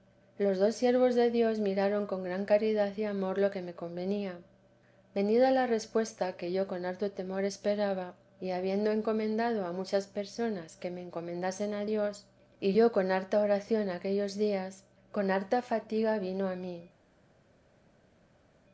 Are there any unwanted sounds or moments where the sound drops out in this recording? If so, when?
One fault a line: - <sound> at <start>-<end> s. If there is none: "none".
none